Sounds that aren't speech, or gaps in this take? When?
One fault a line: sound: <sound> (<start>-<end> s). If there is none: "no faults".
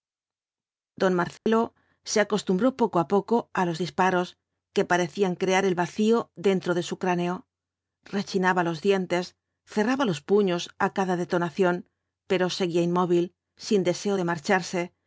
sound: dropout (1.4-1.5 s)